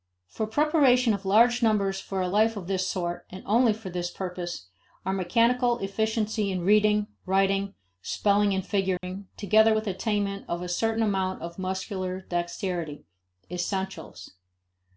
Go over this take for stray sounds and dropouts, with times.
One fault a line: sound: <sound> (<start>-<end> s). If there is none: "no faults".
sound: dropout (9.0-9.0 s)